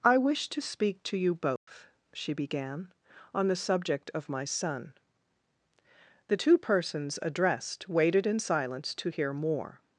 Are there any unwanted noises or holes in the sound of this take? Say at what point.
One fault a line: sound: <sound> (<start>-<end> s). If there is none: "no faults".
sound: dropout (1.6-1.7 s)